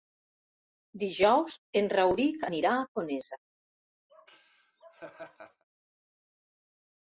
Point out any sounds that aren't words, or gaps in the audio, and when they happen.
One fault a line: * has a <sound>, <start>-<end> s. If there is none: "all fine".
* has a laugh, 4.1-5.6 s